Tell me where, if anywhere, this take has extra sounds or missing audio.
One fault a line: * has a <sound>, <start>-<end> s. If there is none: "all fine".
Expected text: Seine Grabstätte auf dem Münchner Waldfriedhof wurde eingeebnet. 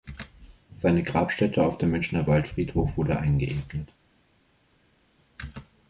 all fine